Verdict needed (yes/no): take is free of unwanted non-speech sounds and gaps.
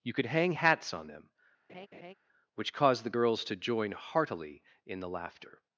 no